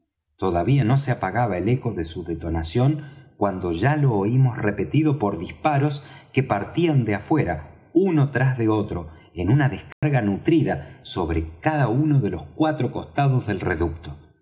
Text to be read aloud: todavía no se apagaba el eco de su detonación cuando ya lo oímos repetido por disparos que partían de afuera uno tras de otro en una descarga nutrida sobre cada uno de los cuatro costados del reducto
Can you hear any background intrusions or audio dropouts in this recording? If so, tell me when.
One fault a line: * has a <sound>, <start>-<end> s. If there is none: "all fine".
* has a dropout, 9.9-10.0 s